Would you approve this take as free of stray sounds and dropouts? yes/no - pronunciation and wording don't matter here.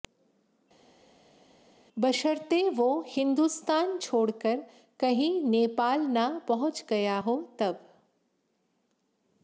yes